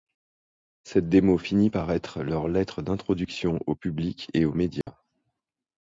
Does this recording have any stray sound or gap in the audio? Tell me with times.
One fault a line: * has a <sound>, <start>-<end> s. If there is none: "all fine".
* has a dropout, 4.8-4.9 s